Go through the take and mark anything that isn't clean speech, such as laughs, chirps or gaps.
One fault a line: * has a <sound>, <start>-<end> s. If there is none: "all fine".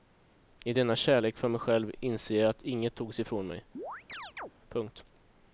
* has a chirp, 3.8-4.5 s